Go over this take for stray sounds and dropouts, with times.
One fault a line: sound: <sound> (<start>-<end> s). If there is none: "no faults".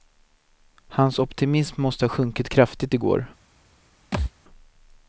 sound: thud (4.1-4.3 s)